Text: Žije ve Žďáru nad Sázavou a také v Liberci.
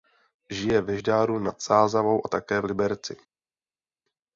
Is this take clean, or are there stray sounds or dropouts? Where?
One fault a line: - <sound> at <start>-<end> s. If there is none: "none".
none